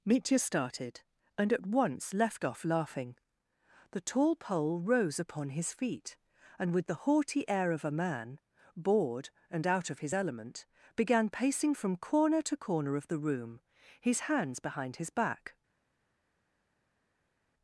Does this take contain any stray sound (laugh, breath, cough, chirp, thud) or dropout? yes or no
no